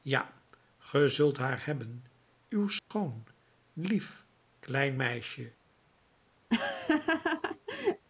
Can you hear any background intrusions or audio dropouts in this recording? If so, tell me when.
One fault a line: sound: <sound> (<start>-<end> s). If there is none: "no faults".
sound: dropout (2.8-2.9 s)
sound: laugh (6.5-8.1 s)